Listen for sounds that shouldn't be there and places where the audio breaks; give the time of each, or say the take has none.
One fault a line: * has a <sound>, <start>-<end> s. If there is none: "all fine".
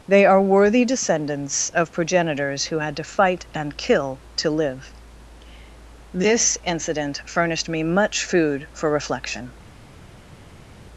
all fine